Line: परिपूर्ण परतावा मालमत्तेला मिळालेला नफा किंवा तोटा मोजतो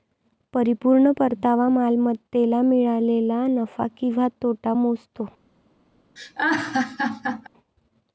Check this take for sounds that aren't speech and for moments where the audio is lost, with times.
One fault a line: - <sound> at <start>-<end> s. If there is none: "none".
- laugh at 6.2-7.5 s